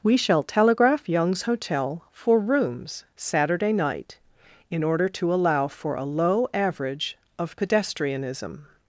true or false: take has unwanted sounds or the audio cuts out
false